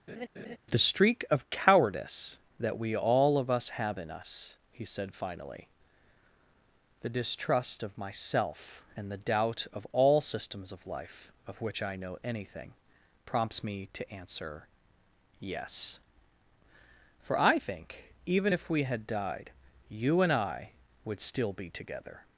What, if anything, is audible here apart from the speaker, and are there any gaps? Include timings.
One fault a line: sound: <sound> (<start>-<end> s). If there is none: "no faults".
sound: laugh (0.1-0.6 s)